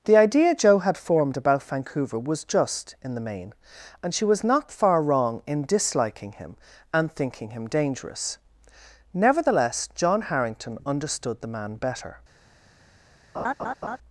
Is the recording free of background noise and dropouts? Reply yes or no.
no